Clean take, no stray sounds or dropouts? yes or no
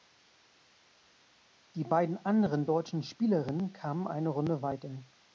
yes